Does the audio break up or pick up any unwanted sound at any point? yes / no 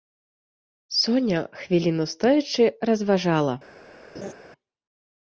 yes